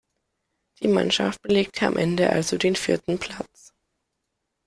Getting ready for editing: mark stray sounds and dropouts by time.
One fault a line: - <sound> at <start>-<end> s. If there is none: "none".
none